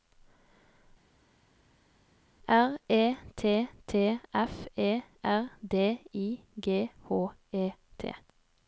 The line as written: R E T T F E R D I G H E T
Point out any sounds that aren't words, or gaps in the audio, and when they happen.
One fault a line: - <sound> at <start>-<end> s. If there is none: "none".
none